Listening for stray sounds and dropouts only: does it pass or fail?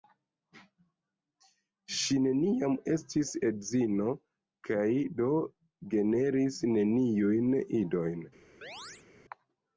fail